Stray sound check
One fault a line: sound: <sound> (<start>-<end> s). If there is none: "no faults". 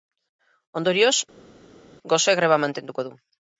no faults